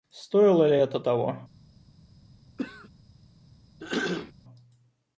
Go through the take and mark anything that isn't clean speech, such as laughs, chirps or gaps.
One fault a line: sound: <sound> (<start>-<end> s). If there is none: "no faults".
sound: throat clearing (2.6-2.9 s)
sound: throat clearing (3.8-4.3 s)